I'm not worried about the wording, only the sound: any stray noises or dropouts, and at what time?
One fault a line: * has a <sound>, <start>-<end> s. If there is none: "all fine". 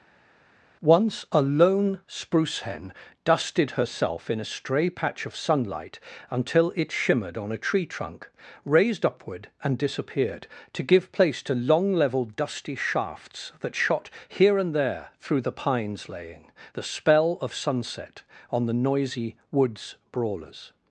all fine